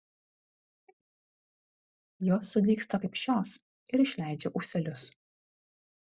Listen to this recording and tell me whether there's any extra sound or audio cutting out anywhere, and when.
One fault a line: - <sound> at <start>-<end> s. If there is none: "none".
none